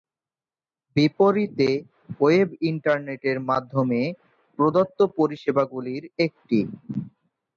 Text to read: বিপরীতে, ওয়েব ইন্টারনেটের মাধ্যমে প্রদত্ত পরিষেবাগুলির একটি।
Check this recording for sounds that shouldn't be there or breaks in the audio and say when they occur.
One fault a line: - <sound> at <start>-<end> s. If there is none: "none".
none